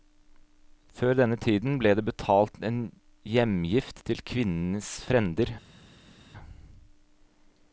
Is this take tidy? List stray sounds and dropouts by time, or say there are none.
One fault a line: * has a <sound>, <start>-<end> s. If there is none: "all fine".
all fine